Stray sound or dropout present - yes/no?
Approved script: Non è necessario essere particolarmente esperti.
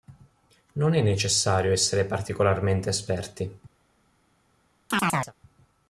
yes